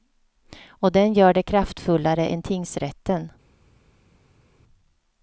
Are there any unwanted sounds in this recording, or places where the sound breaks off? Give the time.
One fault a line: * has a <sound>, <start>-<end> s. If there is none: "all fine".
all fine